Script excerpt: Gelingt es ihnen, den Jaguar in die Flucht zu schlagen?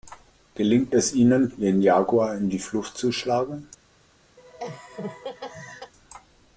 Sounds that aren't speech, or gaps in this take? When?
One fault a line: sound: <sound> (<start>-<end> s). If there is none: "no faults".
sound: laugh (4.4-5.9 s)